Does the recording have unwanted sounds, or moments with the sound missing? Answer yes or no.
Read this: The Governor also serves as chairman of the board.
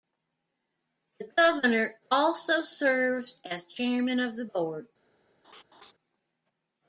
yes